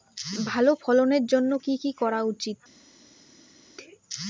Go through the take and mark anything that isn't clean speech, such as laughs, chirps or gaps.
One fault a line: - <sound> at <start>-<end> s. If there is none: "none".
none